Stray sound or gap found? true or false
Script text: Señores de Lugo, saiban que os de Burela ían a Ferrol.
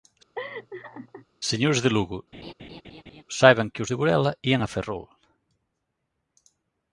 true